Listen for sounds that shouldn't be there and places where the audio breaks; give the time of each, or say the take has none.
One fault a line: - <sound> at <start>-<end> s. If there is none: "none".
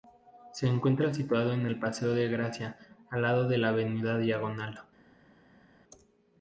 none